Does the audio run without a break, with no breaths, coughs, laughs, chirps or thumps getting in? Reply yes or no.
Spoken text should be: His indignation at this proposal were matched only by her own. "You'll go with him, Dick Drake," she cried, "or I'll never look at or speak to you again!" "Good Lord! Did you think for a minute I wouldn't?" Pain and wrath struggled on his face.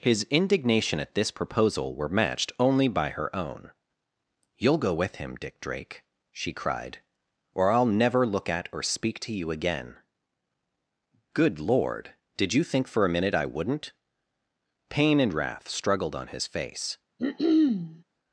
no